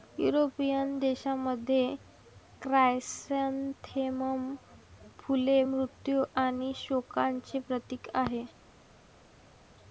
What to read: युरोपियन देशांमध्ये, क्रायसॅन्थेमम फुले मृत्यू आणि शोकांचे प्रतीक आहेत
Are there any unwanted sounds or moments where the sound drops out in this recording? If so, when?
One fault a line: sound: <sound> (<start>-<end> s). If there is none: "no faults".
no faults